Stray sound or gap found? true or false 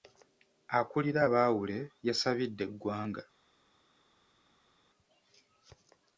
false